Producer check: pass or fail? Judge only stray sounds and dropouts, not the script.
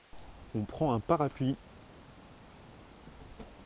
pass